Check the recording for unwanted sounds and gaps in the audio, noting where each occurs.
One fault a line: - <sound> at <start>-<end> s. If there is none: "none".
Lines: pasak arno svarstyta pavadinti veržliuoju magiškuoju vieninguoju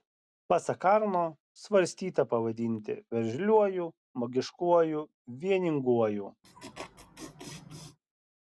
- laugh at 6.4-8.0 s